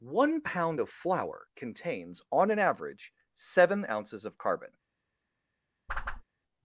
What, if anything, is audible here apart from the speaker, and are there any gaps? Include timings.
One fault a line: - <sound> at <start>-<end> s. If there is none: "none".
- whoosh at 5.9-6.2 s